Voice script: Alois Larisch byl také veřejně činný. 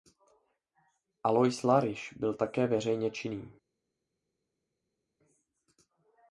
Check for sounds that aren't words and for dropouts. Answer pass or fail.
pass